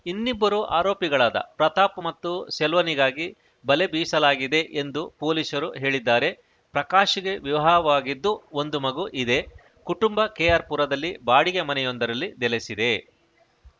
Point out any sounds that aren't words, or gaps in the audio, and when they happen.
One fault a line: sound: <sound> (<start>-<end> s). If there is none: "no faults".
no faults